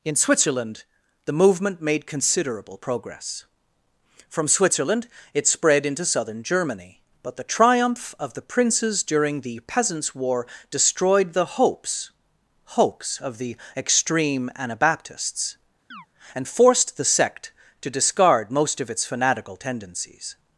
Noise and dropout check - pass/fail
fail